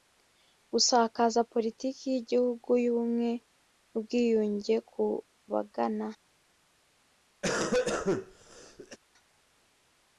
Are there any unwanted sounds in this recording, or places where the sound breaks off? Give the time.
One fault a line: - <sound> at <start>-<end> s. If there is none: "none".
- cough at 7.4-9.0 s